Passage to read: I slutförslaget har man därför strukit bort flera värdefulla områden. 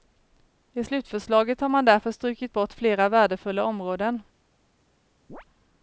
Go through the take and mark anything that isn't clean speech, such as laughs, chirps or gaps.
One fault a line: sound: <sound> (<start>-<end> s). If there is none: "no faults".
sound: chirp (5.3-5.4 s)